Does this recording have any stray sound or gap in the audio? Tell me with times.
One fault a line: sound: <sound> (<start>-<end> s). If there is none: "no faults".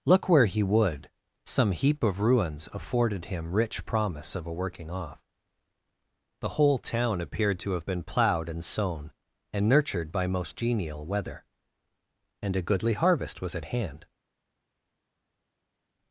no faults